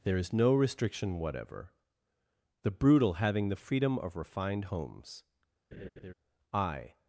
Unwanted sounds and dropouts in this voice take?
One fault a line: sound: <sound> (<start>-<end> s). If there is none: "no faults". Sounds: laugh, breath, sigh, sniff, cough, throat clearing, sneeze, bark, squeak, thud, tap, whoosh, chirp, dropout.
sound: laugh (5.7-6.1 s)